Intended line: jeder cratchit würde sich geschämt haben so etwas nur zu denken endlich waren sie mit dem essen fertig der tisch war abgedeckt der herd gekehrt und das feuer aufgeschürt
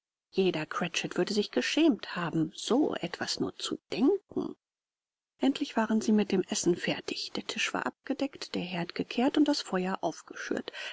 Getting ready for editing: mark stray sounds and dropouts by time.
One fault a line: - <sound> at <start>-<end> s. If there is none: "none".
none